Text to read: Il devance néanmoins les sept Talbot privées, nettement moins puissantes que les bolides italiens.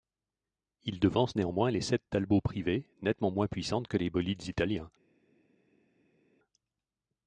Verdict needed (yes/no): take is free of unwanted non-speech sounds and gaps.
yes